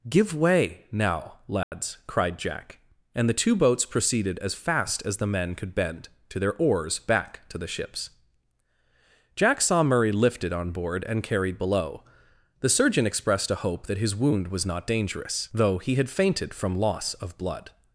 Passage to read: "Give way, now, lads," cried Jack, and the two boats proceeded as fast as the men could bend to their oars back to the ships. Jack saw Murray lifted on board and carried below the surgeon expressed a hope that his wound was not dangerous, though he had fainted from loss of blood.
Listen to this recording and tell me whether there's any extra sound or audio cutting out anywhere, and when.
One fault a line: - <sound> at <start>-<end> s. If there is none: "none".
- dropout at 1.6-1.7 s